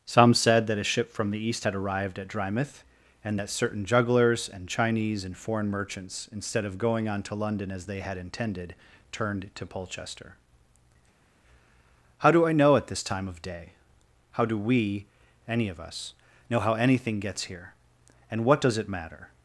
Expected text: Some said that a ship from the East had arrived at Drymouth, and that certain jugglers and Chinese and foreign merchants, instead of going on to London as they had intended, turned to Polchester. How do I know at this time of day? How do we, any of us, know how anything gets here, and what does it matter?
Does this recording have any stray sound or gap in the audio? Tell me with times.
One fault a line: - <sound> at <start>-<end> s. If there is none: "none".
none